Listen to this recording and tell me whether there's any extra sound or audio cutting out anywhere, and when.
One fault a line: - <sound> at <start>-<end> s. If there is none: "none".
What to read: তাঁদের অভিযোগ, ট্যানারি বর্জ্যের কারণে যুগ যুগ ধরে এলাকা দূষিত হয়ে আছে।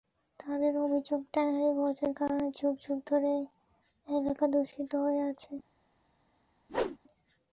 - whoosh at 6.7-7.0 s